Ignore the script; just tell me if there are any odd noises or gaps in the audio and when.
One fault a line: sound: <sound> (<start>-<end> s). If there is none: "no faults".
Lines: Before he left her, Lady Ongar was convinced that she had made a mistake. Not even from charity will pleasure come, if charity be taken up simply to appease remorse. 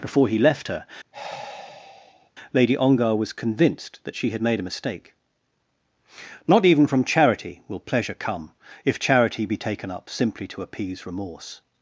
sound: sigh (1.1-2.3 s)